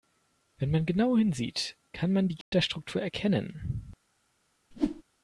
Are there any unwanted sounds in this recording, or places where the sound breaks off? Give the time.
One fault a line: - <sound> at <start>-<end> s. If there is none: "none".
- dropout at 2.4-2.5 s
- whoosh at 4.7-5.0 s